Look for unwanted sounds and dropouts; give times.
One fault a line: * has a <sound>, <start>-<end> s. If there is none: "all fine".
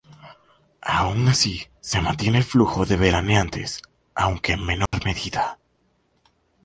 * has a dropout, 4.9-4.9 s